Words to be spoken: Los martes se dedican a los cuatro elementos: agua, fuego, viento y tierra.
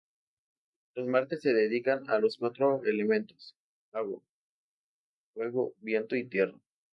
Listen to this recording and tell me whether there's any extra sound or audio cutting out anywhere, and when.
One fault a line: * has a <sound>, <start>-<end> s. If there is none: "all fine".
all fine